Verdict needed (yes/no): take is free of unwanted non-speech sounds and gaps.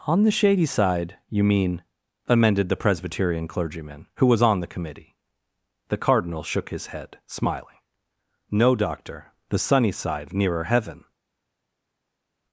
yes